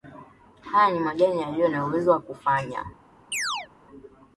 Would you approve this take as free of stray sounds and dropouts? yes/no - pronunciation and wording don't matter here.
no